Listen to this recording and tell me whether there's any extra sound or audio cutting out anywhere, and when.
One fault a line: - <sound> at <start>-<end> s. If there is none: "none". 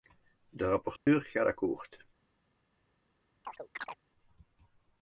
- dropout at 1.0-1.1 s
- chirp at 3.4-4.0 s